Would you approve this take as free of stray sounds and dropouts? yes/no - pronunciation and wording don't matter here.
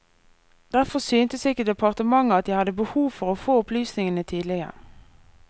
yes